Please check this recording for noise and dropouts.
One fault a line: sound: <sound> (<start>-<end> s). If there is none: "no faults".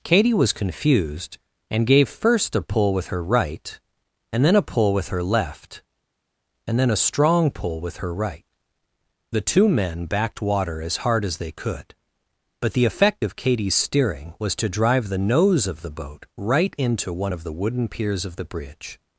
no faults